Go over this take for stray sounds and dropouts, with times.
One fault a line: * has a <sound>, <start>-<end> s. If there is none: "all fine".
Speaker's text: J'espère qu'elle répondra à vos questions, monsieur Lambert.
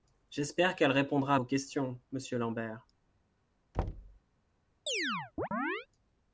* has a thud, 3.7-4.2 s
* has a chirp, 4.9-5.9 s